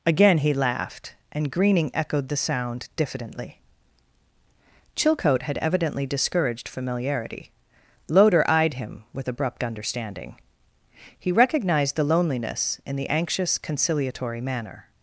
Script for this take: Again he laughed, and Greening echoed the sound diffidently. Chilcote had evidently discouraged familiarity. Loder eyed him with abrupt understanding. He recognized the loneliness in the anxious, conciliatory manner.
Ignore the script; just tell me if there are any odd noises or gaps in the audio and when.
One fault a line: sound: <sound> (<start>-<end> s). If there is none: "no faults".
no faults